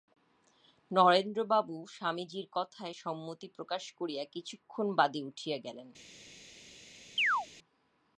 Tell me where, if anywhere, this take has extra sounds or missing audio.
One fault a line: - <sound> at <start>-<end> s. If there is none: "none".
- chirp at 7.2-7.5 s